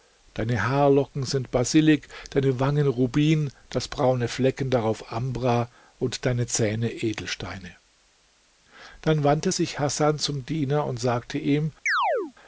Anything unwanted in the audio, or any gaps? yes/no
yes